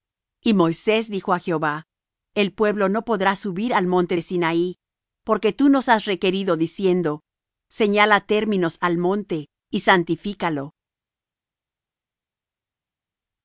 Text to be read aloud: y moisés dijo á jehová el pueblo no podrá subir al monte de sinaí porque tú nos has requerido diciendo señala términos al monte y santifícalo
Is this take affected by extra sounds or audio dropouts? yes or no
no